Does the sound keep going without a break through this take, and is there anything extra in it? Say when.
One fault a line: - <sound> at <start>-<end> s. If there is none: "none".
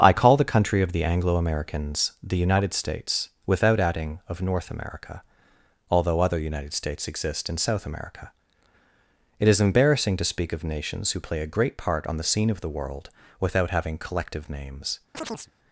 - chirp at 15.1-15.5 s